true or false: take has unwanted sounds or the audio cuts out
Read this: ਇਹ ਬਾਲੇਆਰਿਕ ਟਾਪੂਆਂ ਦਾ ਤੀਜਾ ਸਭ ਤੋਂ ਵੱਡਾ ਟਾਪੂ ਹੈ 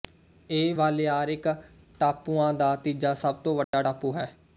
true